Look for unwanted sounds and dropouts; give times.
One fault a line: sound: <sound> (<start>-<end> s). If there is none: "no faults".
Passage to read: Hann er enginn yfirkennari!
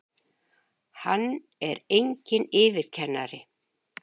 no faults